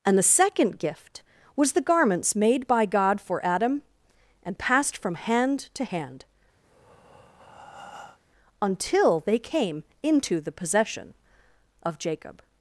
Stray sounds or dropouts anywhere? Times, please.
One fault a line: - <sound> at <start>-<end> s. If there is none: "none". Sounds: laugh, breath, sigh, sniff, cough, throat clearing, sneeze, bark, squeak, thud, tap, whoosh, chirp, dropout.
- breath at 6.6-8.2 s